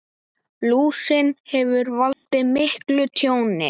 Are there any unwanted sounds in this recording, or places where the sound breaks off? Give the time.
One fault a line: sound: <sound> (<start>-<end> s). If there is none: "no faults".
sound: dropout (2.1-2.3 s)